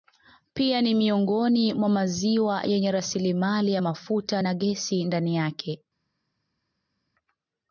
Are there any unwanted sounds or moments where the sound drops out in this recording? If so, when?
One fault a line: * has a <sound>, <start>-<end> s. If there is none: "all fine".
all fine